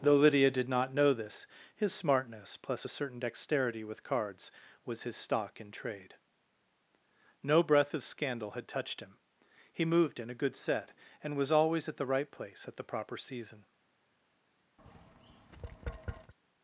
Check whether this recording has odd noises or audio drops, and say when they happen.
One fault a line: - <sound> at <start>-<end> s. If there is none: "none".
- tap at 14.8-16.3 s